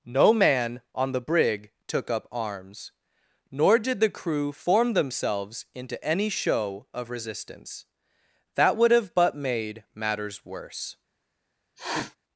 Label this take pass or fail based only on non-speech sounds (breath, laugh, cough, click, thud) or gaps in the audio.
fail